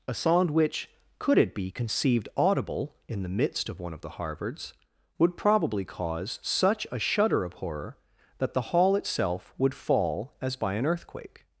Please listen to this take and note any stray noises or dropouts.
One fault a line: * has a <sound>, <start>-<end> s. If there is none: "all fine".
all fine